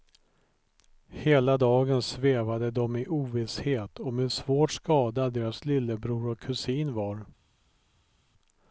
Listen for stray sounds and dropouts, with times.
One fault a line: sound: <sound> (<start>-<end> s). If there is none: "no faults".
no faults